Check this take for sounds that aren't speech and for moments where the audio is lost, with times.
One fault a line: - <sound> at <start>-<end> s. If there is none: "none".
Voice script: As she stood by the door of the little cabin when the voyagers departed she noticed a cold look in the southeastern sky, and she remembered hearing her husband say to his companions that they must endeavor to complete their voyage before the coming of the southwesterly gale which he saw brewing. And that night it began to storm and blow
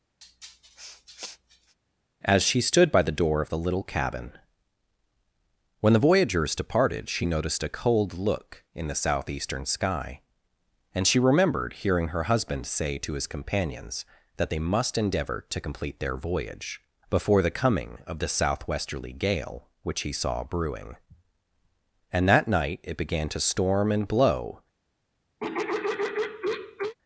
- sniff at 0.2-1.8 s
- throat clearing at 25.4-26.9 s